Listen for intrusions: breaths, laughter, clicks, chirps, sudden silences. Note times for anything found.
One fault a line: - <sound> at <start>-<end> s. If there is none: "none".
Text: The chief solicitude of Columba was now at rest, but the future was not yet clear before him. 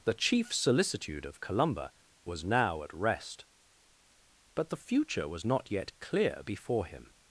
none